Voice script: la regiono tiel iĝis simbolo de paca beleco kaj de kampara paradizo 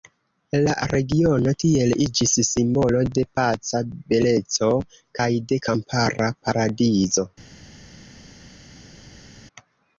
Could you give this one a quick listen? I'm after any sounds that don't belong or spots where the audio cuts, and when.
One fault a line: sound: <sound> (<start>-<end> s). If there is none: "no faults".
no faults